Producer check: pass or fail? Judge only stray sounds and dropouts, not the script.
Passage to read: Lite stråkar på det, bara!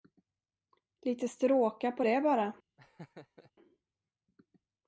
fail